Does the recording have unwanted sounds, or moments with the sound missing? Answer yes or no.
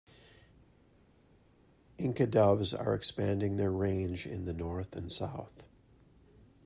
no